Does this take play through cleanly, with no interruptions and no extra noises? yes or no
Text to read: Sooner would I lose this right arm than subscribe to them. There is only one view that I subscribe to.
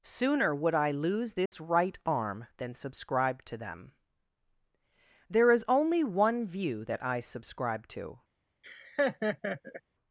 no